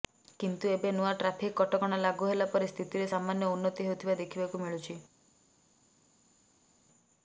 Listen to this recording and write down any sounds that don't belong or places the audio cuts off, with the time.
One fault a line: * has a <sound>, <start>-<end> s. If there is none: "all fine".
all fine